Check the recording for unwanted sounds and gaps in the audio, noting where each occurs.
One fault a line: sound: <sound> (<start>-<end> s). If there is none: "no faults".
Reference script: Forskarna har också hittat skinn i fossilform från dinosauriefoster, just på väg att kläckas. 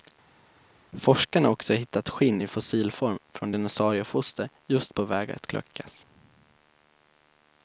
no faults